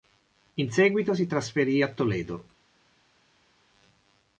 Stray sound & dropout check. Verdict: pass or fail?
pass